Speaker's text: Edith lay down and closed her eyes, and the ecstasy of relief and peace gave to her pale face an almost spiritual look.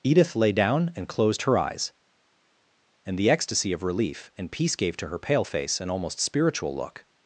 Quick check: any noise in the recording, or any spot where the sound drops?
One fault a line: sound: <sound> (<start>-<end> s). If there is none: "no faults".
no faults